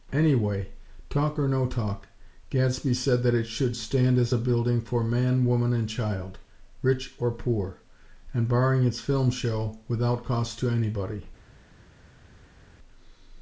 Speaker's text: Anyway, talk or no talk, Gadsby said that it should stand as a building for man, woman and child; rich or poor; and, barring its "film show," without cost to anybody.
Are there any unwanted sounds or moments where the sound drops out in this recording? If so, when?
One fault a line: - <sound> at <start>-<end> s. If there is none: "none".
none